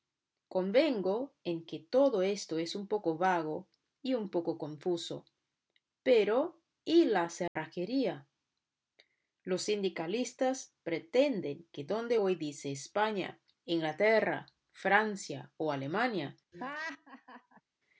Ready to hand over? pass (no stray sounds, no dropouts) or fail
fail